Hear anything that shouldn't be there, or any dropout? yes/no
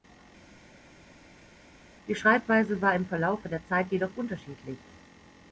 no